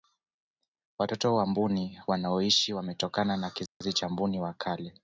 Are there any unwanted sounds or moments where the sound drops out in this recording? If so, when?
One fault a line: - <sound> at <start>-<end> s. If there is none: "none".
- dropout at 3.7-3.8 s